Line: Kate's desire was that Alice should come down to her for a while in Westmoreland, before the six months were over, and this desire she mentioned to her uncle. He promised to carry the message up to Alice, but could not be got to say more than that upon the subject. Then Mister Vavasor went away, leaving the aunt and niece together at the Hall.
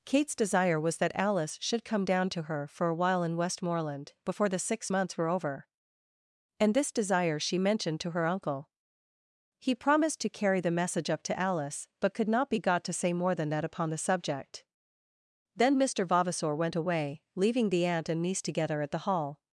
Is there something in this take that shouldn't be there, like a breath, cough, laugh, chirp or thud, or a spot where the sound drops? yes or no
no